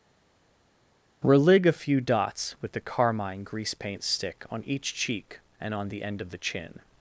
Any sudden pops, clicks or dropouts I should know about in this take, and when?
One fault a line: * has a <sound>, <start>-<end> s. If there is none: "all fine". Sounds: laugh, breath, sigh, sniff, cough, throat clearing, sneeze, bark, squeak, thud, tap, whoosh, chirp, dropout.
all fine